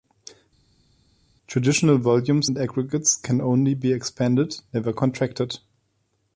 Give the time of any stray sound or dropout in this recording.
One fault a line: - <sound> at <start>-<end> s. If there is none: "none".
none